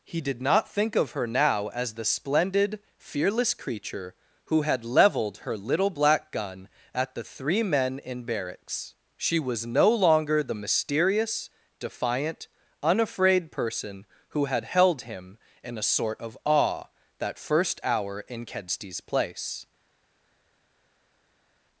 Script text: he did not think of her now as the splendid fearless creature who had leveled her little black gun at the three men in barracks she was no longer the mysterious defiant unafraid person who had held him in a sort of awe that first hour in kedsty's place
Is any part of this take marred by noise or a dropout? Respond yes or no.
no